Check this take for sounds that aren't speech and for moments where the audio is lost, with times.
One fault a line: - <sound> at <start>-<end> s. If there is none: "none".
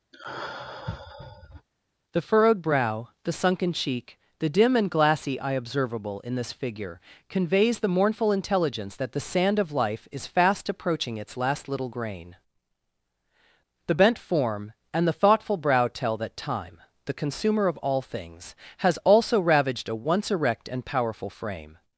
- sigh at 0.1-1.7 s